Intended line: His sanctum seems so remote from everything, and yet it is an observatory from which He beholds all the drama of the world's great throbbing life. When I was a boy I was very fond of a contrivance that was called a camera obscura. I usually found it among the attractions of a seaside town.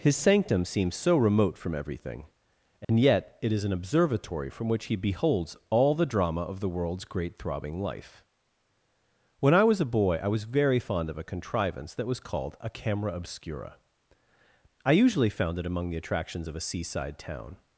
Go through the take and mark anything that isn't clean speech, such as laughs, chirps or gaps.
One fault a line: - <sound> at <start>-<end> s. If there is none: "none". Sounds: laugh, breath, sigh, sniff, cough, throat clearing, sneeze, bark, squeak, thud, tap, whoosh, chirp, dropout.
- dropout at 2.8-2.9 s